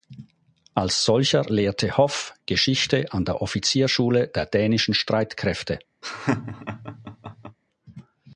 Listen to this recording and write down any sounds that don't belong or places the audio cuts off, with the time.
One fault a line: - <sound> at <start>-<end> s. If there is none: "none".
- laugh at 6.0-7.6 s